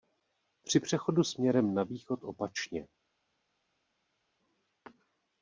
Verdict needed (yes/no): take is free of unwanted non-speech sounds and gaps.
yes